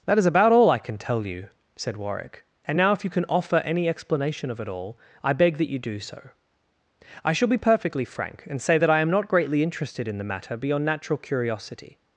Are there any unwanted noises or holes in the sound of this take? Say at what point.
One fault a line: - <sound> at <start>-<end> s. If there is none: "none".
none